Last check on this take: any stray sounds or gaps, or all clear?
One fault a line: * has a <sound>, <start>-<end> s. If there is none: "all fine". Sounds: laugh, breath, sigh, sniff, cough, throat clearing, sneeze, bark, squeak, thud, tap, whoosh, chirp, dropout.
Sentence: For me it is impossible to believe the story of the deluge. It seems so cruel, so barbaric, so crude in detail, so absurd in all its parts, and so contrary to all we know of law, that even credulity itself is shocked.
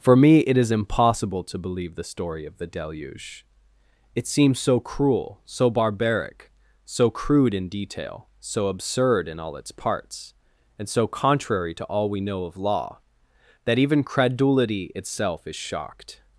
all fine